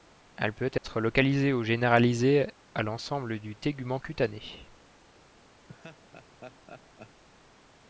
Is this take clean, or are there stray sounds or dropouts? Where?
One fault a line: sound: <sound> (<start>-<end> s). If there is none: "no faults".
sound: dropout (0.8-0.8 s)
sound: laugh (5.7-7.2 s)